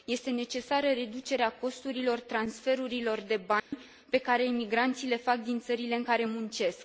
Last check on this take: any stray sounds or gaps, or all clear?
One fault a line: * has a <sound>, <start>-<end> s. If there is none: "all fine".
* has a dropout, 3.6-3.7 s